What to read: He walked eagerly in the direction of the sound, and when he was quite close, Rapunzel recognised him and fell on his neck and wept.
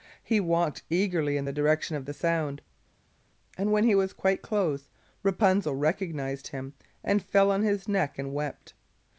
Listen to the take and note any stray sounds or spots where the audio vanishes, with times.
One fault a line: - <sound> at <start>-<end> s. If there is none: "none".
none